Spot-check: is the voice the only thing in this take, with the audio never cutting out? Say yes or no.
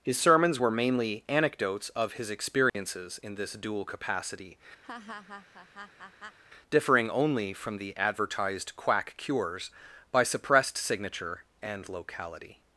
no